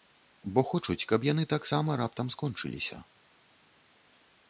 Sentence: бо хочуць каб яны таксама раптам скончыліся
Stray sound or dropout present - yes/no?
no